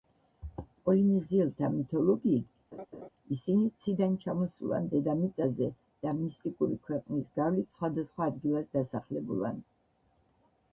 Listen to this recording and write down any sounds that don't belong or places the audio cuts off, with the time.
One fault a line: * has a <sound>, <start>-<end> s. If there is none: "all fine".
* has a laugh, 2.7-3.1 s